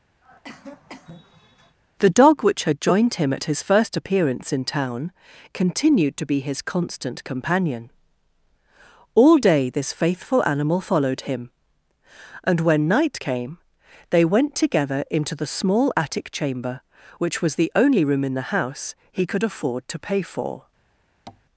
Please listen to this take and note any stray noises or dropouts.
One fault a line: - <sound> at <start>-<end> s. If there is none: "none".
- cough at 0.2-1.8 s
- tap at 21.3-21.4 s